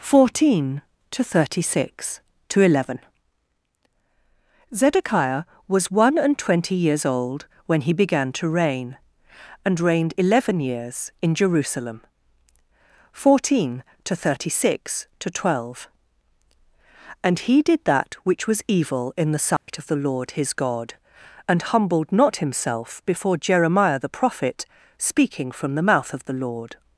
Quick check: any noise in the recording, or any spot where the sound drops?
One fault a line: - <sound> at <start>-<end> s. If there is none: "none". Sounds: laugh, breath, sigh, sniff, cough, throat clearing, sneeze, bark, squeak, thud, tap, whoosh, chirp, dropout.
- dropout at 19.6-19.7 s